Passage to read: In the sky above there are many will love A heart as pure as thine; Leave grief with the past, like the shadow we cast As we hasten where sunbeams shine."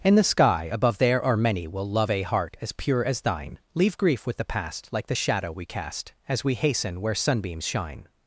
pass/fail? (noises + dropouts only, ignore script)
pass